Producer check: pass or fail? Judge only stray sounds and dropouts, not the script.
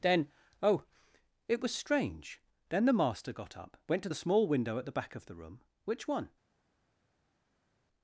pass